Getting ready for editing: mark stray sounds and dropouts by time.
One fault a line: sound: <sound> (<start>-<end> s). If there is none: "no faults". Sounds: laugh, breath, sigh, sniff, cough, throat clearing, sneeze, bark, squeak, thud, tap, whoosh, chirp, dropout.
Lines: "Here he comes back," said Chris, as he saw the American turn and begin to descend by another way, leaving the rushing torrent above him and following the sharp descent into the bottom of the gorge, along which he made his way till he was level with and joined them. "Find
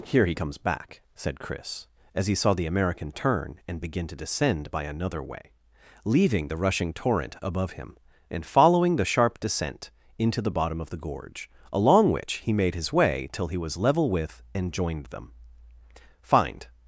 no faults